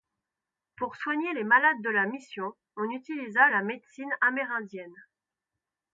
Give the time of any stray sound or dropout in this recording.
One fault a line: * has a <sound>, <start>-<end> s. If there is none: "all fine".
all fine